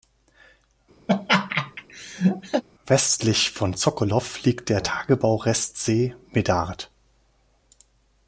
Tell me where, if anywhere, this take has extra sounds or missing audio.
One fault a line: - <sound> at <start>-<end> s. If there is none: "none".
- laugh at 1.1-2.6 s